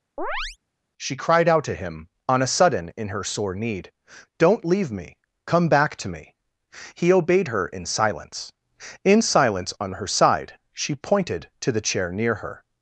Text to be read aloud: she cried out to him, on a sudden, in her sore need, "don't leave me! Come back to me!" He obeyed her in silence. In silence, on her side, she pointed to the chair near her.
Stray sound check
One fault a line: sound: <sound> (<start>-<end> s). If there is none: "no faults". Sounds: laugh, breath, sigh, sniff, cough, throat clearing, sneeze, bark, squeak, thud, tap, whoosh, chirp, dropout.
sound: chirp (0.2-0.6 s)